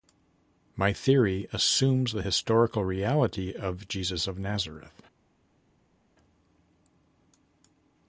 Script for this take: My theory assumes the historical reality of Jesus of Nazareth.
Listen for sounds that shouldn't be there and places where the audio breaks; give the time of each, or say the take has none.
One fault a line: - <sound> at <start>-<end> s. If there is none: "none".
none